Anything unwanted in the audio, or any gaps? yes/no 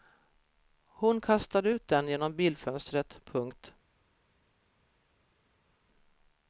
no